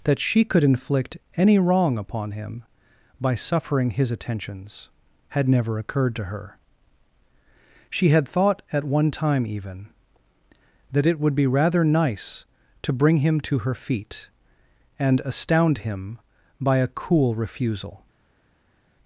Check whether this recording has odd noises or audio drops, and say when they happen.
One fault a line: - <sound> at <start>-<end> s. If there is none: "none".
none